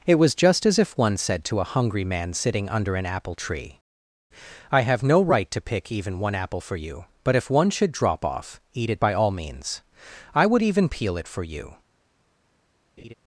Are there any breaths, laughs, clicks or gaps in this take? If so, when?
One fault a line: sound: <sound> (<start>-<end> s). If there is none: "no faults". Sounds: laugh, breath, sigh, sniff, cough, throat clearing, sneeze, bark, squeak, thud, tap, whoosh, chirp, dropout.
sound: laugh (13.0-13.1 s)